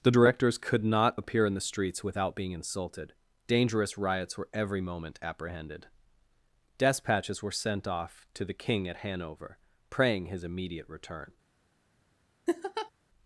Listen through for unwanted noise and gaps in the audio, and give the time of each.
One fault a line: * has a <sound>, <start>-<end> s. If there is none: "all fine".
* has a laugh, 12.5-12.9 s